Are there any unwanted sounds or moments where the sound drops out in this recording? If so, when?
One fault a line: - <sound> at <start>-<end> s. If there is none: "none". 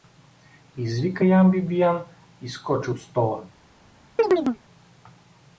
- chirp at 4.2-4.6 s